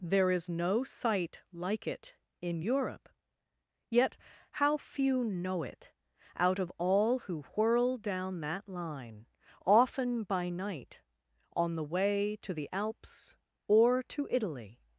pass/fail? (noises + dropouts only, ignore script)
pass